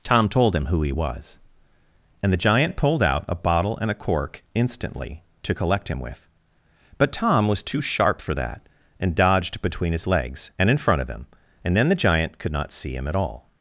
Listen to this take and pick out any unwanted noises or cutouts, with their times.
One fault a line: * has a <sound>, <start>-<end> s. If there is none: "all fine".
all fine